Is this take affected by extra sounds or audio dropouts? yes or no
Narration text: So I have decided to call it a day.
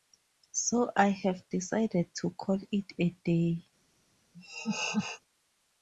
yes